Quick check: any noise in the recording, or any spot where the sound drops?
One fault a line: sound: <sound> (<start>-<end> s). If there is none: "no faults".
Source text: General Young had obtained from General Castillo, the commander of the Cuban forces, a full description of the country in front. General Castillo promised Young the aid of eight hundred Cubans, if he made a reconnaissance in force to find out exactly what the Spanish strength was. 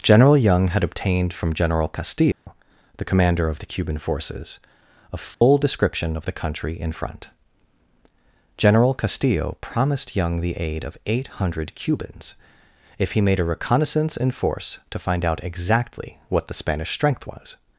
sound: dropout (2.3-2.5 s)
sound: dropout (5.3-5.4 s)